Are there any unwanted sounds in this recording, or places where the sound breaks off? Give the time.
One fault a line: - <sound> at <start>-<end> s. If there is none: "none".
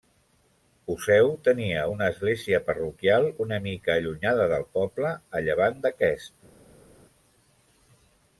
none